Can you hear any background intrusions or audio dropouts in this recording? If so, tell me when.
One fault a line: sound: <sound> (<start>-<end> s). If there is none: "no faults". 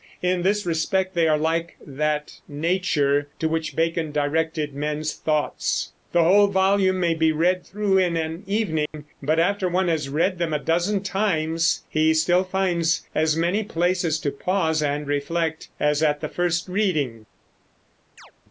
sound: dropout (8.9-8.9 s)
sound: chirp (18.2-18.3 s)